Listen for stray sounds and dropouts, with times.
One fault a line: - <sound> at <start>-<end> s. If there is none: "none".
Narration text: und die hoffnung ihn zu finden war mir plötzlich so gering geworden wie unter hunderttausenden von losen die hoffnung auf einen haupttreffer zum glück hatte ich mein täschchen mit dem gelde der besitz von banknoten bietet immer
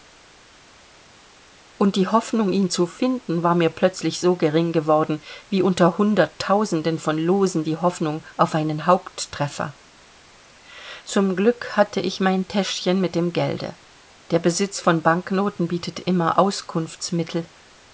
none